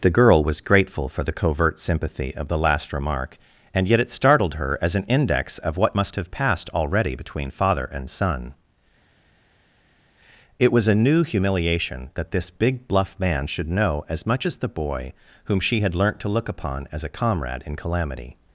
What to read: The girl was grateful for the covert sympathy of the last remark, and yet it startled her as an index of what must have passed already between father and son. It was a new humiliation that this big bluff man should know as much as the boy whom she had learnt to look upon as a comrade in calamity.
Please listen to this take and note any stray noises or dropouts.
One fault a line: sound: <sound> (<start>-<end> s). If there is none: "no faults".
no faults